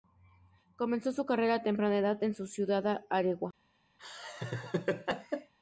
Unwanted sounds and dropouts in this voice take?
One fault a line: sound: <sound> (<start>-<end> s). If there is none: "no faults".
sound: laugh (4.0-5.5 s)